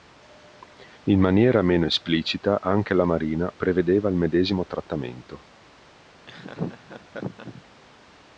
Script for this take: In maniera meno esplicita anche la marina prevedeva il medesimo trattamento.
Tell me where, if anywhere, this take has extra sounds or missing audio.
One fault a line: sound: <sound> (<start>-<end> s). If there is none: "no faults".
sound: laugh (6.3-7.6 s)